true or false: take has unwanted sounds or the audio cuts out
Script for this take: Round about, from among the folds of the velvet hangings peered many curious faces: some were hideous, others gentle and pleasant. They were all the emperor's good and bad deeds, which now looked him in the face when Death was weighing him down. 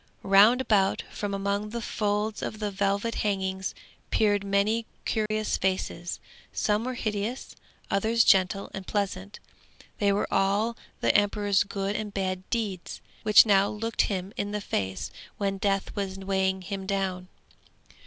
true